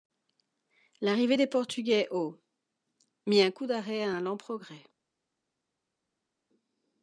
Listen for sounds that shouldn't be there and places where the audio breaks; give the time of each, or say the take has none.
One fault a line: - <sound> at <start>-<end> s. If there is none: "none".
none